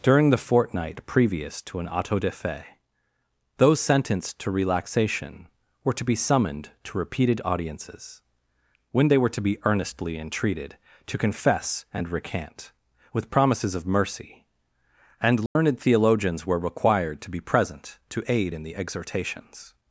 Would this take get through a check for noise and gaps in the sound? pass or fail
fail